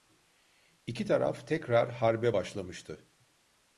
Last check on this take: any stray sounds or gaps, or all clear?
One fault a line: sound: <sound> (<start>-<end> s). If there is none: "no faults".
no faults